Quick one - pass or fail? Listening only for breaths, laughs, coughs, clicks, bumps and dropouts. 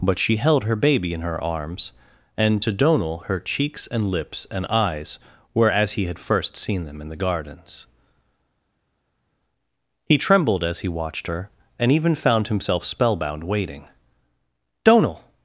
pass